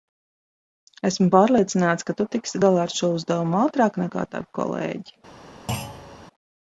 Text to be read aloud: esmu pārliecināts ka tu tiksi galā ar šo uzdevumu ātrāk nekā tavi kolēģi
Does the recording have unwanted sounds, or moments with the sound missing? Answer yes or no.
yes